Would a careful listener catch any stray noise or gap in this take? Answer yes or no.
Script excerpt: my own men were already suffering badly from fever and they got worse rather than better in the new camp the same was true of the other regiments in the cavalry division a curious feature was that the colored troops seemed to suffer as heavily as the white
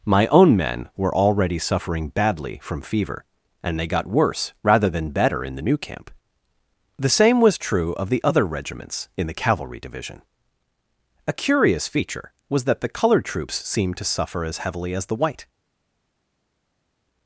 no